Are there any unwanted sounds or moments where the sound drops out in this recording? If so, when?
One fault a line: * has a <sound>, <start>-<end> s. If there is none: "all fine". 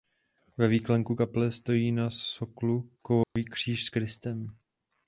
* has a dropout, 3.2-3.4 s